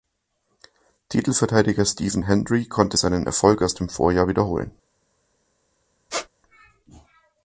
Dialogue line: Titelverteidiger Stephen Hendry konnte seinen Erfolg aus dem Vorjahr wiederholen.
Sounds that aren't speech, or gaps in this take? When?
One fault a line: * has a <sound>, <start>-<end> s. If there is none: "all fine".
* has a squeak, 6.1-6.3 s